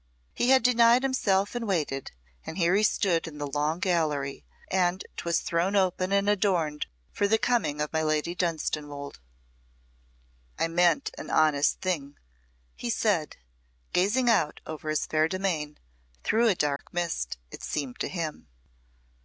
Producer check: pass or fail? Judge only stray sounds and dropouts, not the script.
fail